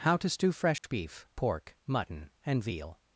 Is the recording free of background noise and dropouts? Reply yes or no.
no